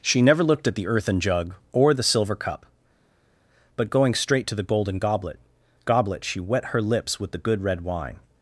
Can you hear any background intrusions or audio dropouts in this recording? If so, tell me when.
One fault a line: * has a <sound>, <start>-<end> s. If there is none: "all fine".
all fine